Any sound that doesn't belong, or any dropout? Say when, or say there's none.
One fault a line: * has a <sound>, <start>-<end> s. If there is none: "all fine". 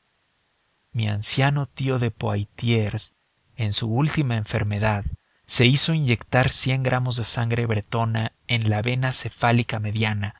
all fine